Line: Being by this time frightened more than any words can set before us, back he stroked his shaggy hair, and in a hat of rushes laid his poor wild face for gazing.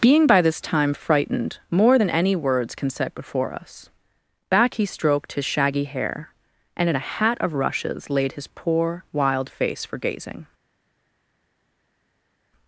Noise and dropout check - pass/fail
pass